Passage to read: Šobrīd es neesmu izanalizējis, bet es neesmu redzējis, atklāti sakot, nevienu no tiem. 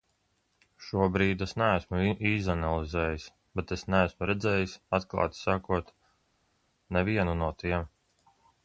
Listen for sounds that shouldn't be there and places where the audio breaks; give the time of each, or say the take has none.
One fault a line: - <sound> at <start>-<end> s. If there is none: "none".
none